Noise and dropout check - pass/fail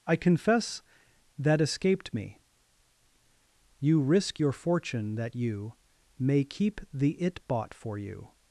pass